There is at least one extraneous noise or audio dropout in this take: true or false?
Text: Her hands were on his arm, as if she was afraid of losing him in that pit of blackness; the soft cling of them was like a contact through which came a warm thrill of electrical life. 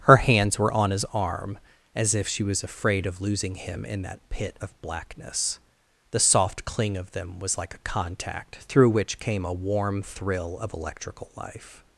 false